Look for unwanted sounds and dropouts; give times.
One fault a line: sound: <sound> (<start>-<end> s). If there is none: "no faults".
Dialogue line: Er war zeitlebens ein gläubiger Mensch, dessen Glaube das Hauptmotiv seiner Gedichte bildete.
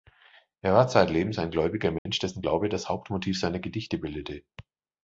sound: dropout (2.0-2.1 s)